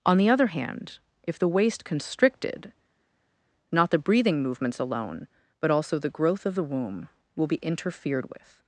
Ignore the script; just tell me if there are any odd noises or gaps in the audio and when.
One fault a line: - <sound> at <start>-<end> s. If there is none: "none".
none